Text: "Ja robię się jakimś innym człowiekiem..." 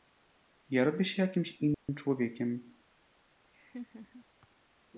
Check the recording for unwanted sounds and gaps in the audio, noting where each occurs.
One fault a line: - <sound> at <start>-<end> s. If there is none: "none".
- dropout at 1.7-1.9 s
- laugh at 3.5-4.2 s